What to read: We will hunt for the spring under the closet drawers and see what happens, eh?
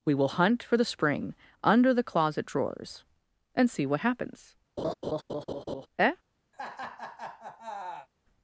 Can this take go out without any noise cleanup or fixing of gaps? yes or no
no